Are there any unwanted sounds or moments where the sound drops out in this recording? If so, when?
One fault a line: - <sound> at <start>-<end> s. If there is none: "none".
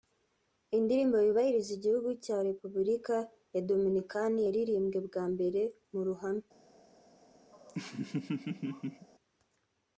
- laugh at 7.5-9.1 s